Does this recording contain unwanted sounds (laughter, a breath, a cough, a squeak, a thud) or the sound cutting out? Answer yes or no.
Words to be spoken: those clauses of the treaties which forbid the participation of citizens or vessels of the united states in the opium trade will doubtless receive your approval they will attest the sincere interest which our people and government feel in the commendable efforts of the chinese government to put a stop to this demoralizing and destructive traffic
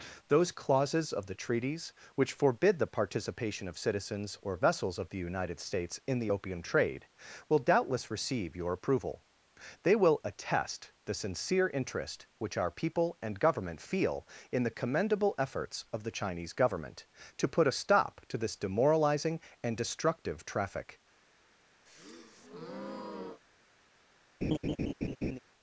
yes